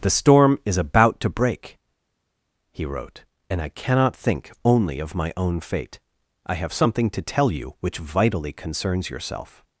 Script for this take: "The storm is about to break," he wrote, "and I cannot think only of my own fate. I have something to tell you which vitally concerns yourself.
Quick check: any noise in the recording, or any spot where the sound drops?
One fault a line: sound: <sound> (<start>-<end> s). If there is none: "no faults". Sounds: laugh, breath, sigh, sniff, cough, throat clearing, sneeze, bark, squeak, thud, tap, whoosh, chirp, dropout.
no faults